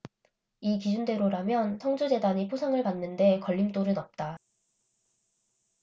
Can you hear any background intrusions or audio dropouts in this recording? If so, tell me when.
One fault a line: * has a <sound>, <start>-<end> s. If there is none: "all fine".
all fine